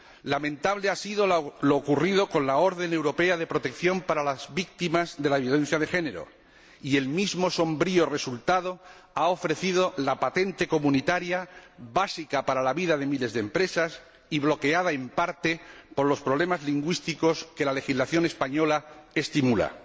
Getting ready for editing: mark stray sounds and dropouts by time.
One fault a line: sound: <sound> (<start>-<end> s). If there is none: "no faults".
no faults